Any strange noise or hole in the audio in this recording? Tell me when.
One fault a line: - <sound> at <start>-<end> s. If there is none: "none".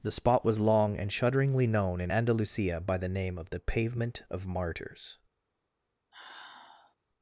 - sigh at 6.1-7.0 s